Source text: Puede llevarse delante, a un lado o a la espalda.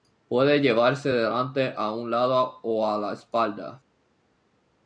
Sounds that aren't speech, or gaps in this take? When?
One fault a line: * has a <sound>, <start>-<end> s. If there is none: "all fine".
all fine